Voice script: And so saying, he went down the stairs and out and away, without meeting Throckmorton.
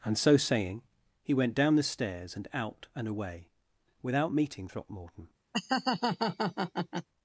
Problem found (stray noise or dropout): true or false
true